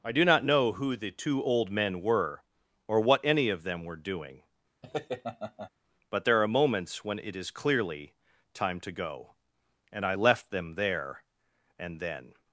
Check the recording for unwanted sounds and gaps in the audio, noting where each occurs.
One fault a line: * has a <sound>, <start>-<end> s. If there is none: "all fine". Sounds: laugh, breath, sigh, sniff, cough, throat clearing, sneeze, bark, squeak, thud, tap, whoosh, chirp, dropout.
* has a laugh, 4.8-5.7 s